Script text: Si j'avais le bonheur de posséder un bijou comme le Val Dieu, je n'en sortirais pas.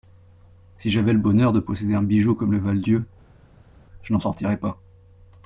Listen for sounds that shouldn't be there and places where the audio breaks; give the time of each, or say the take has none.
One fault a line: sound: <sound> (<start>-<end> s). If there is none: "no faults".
no faults